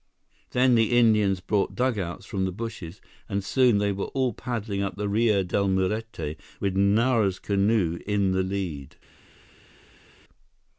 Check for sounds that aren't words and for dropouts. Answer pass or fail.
pass